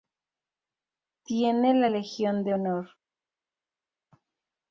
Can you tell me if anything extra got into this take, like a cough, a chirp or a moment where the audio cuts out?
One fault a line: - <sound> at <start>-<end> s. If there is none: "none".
none